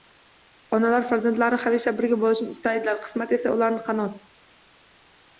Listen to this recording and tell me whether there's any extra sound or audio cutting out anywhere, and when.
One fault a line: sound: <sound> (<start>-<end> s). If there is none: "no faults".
no faults